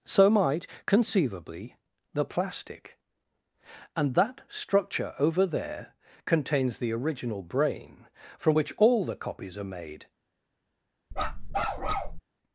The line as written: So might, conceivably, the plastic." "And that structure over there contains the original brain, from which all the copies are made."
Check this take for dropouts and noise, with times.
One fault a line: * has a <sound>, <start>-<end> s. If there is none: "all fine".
* has a bark, 11.1-12.2 s